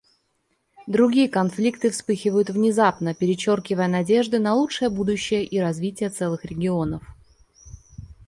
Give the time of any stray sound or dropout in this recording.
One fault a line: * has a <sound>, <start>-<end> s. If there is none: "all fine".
all fine